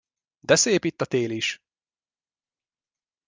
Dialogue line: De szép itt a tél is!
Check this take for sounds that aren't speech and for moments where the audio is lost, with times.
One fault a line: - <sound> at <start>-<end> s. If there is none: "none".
none